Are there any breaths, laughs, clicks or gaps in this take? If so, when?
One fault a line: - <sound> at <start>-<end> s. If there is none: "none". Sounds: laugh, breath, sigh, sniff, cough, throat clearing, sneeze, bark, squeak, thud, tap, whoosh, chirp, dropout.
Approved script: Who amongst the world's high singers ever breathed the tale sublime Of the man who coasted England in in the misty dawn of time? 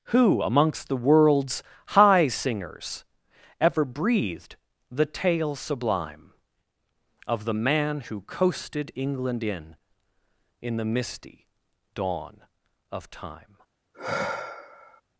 - sigh at 13.9-15.0 s